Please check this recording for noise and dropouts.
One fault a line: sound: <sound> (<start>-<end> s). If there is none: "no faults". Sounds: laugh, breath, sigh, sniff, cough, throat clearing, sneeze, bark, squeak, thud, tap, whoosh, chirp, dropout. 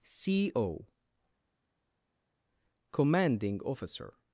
no faults